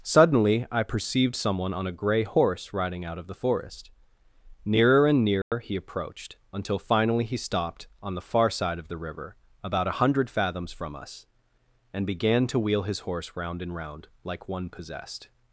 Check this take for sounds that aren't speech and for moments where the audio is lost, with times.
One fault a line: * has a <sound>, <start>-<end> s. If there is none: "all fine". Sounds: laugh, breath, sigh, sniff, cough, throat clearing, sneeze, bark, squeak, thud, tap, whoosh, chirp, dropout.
* has a dropout, 5.4-5.5 s